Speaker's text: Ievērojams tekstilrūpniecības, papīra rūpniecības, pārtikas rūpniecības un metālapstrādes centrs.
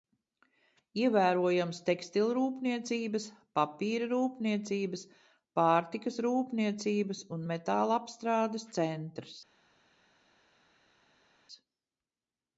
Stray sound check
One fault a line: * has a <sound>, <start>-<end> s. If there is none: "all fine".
all fine